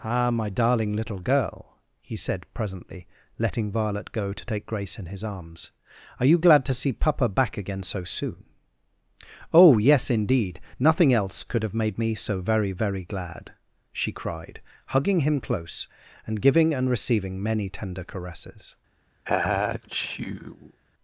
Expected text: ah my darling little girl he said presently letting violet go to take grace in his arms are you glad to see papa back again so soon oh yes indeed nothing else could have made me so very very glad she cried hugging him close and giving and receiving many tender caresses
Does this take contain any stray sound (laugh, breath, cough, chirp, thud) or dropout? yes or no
yes